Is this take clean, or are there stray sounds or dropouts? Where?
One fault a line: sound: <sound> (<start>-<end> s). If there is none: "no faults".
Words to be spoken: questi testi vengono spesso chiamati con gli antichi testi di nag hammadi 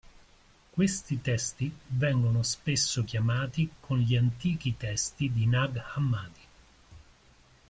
no faults